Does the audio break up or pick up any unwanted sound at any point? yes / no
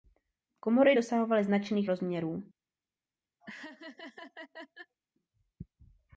yes